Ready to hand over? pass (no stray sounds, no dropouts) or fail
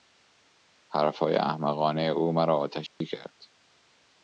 fail